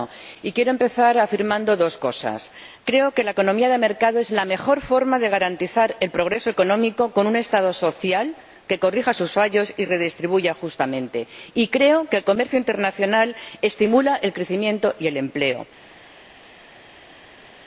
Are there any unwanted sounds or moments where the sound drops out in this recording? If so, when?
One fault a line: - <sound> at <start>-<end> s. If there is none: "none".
none